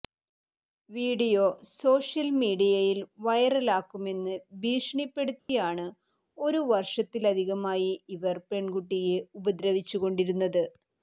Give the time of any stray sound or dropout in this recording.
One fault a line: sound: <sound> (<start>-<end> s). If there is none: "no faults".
sound: dropout (5.4-5.5 s)